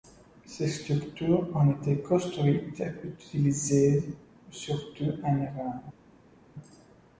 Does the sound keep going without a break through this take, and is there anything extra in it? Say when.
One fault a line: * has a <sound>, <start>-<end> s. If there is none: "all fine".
all fine